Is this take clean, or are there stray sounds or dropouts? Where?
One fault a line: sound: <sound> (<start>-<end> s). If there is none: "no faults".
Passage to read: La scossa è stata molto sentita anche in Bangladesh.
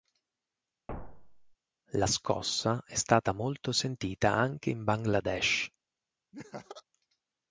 sound: thud (0.9-1.5 s)
sound: laugh (6.3-6.8 s)